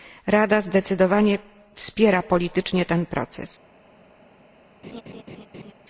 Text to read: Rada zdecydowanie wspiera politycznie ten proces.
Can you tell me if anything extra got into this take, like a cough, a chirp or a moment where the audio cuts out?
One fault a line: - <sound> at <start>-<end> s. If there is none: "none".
- laugh at 4.8-5.7 s